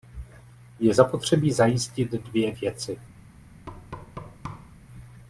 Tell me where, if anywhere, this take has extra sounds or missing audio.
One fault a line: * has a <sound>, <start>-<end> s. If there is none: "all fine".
* has a thud, 3.7-4.7 s